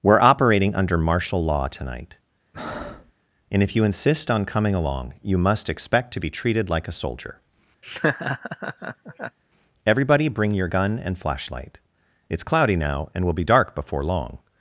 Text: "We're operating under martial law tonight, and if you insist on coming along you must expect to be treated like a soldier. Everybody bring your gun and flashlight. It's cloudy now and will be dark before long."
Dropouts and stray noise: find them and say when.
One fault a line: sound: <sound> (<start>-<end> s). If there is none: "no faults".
sound: breath (2.5-3.1 s)
sound: laugh (7.8-9.4 s)